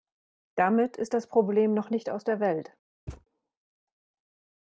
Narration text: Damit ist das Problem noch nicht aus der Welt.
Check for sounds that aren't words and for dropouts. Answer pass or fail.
fail